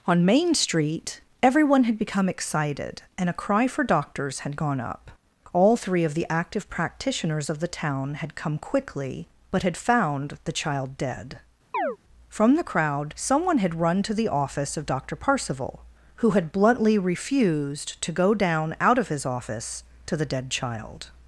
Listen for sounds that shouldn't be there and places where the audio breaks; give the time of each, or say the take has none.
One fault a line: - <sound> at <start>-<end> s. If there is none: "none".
- chirp at 11.7-12.0 s